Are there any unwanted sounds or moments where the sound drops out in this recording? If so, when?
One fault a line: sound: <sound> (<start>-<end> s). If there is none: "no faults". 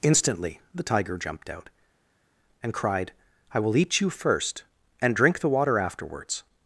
no faults